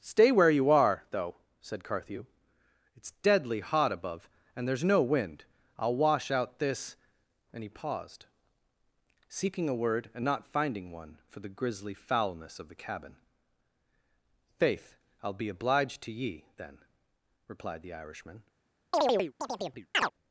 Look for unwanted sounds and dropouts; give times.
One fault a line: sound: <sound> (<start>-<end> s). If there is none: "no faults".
sound: chirp (18.9-20.1 s)